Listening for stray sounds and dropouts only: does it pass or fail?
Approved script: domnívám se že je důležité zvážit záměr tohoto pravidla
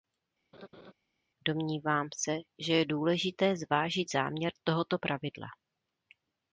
fail